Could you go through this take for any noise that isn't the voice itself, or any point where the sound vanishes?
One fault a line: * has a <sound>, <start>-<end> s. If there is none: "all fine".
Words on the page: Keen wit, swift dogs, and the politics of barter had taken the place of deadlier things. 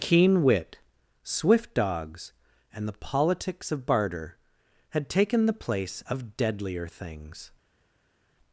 all fine